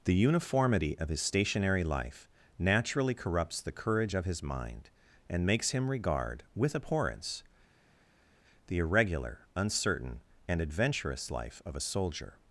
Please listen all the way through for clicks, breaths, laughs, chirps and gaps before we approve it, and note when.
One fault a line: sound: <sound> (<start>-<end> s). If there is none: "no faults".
no faults